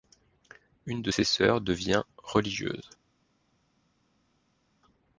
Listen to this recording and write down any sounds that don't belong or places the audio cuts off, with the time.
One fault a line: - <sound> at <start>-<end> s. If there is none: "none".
none